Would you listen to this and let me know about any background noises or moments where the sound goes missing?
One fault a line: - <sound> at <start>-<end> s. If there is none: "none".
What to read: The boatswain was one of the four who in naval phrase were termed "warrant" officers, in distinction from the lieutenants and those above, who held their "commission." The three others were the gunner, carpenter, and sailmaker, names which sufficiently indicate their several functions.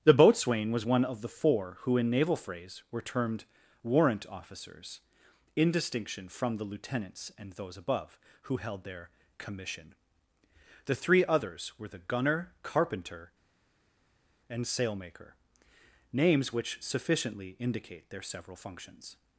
none